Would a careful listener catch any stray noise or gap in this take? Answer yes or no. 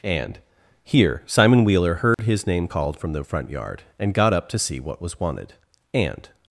yes